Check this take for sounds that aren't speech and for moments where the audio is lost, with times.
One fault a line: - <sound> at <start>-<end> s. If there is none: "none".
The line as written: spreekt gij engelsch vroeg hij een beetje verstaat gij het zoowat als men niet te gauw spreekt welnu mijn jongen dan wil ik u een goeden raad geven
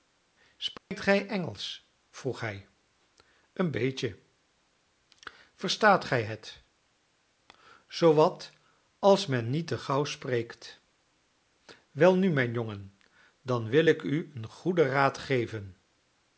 - dropout at 0.8-0.9 s